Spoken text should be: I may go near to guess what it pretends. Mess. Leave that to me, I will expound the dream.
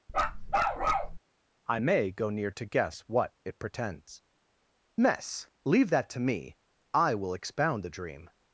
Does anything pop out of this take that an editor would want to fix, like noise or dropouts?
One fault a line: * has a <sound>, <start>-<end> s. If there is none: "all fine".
* has a bark, 0.1-1.2 s